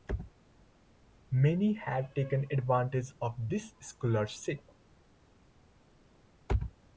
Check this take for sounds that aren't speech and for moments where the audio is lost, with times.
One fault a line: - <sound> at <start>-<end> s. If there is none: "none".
none